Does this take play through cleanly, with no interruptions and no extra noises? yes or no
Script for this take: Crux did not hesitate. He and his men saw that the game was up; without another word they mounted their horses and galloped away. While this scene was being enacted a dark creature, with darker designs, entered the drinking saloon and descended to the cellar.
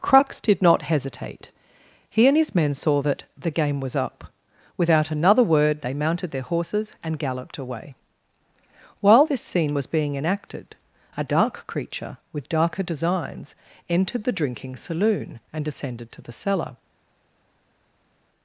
yes